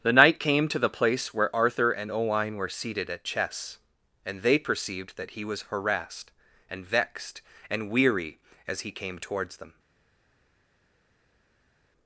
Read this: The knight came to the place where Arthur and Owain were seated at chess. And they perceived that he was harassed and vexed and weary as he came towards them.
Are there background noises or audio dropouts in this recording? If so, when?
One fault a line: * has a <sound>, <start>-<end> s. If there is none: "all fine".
all fine